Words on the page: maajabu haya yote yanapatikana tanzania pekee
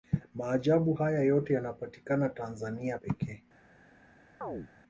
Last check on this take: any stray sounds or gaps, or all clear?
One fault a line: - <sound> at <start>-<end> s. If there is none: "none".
- chirp at 4.4-4.7 s